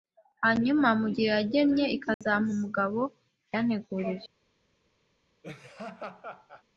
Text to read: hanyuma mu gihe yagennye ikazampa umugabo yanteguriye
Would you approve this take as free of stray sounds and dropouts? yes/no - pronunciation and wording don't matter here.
no